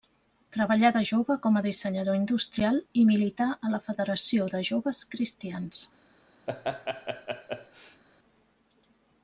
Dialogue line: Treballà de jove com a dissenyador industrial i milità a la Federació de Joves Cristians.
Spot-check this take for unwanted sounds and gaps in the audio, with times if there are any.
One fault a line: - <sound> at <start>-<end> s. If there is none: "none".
- laugh at 6.5-8.0 s